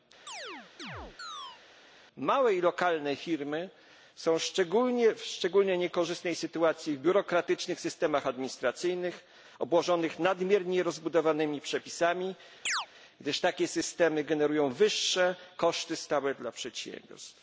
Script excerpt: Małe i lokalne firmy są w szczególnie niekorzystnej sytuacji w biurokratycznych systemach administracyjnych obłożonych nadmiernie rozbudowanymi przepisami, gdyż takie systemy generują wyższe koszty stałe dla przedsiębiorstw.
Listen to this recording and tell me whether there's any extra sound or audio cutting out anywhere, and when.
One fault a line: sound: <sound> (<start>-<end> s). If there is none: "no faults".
sound: chirp (0.3-1.6 s)
sound: chirp (12.7-12.9 s)